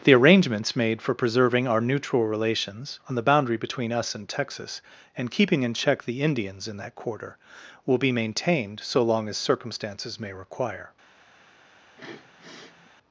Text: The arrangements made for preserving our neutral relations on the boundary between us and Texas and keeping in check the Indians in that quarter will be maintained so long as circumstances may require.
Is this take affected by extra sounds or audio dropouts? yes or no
yes